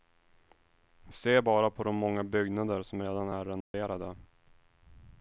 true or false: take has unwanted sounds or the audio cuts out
true